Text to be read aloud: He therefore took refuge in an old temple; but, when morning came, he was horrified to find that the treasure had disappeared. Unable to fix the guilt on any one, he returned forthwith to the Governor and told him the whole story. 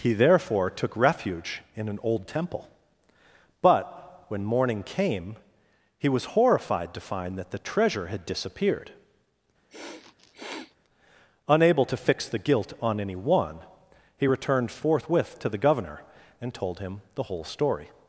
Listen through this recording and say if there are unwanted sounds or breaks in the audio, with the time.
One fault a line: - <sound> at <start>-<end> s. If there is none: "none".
- sniff at 9.7-10.8 s